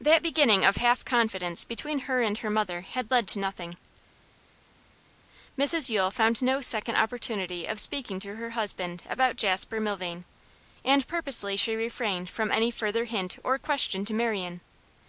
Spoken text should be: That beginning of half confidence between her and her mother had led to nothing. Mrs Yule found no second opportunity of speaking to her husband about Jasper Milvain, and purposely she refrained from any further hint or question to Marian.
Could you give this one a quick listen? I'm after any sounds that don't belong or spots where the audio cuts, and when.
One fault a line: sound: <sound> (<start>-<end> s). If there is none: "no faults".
no faults